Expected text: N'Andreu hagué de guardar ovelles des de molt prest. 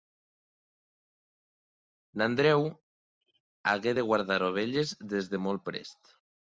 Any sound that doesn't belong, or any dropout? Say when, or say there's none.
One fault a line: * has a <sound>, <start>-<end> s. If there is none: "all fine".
all fine